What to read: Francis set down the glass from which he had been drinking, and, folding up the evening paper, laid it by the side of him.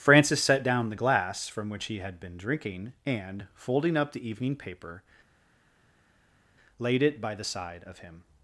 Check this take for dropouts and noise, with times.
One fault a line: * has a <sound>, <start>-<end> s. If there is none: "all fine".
all fine